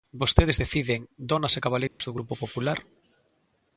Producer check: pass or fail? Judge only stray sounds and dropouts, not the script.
fail